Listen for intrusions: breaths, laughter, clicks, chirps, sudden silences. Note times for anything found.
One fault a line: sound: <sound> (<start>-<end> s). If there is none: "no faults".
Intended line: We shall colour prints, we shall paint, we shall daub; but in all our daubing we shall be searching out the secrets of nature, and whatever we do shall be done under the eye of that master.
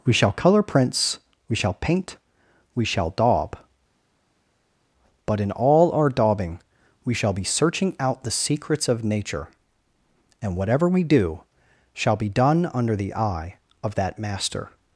no faults